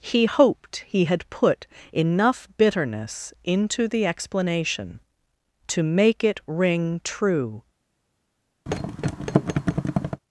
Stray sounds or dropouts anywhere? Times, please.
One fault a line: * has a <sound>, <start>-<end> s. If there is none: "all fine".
* has a thud, 8.7-10.2 s